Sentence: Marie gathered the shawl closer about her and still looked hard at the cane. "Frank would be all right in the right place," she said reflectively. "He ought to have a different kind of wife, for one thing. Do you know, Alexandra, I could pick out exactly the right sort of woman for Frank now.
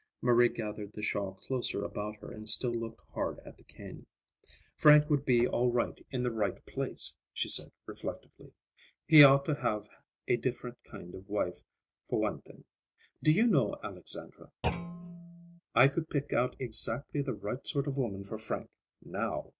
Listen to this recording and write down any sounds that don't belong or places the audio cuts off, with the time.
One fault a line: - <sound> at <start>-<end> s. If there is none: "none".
- thud at 14.6-15.6 s